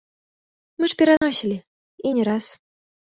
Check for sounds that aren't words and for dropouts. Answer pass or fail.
fail